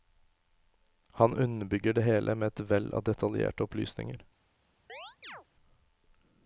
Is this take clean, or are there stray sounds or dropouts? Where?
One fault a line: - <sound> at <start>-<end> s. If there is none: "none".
- chirp at 4.9-5.5 s